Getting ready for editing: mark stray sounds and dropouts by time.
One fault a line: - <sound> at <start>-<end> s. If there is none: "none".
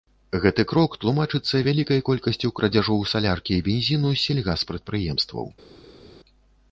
none